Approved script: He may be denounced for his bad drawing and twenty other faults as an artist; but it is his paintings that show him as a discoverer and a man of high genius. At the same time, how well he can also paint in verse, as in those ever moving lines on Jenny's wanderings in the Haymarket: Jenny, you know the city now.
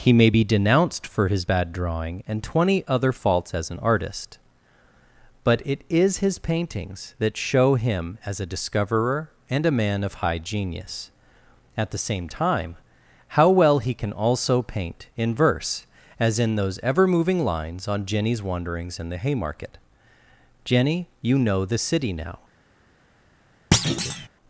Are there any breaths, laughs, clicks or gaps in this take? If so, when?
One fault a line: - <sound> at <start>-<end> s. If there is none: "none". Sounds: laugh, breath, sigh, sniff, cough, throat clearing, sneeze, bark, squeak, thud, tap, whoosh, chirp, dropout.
- thud at 23.7-24.3 s